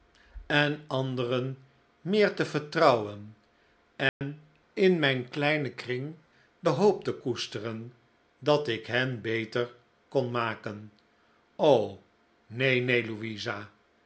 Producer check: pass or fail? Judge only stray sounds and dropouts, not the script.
fail